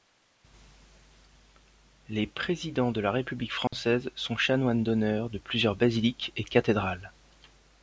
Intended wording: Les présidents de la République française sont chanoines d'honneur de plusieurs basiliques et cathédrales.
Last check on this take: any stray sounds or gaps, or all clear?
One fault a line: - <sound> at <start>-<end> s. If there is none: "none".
- dropout at 3.7-3.7 s